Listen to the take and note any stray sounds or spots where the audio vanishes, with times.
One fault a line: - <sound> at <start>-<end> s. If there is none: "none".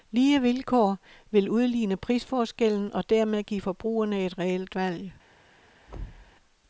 - thud at 5.9-6.3 s